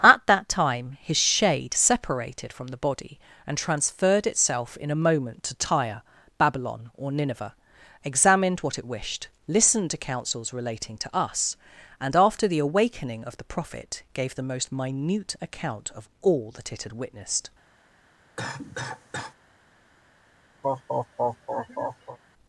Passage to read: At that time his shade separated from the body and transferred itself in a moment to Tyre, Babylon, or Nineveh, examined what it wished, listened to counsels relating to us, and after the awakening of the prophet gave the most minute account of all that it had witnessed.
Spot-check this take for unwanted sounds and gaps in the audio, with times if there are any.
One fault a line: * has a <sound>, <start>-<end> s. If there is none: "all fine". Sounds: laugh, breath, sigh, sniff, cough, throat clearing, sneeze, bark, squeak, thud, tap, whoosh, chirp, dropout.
* has a cough, 18.4-19.3 s
* has a laugh, 20.6-22.2 s